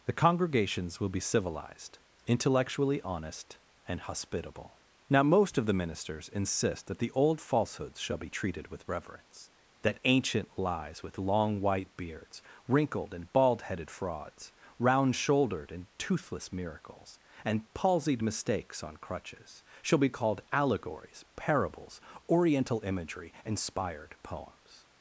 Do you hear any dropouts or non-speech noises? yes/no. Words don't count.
no